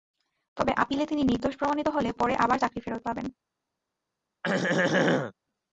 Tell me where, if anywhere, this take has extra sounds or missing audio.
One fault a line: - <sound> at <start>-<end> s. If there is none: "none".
- throat clearing at 4.4-5.3 s